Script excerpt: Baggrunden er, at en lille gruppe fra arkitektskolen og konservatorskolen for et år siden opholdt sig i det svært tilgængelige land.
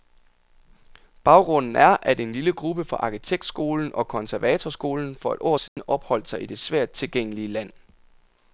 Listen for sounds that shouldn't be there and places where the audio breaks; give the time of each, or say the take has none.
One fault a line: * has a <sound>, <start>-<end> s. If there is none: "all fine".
* has a dropout, 5.7-5.8 s